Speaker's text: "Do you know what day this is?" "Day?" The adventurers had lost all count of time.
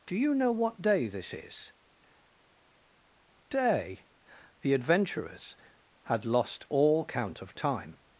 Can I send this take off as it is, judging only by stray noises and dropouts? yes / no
yes